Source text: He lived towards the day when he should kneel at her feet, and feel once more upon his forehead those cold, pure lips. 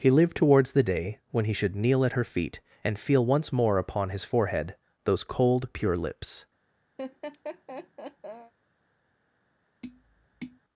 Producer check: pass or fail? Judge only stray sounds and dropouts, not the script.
fail